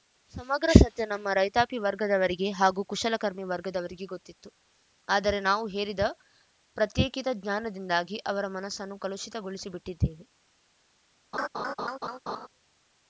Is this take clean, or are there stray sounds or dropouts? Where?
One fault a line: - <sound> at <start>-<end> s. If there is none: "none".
- laugh at 11.3-12.5 s